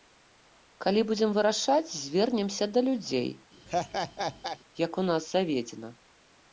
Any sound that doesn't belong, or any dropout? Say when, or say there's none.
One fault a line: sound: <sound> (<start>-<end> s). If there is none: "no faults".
sound: laugh (3.7-4.6 s)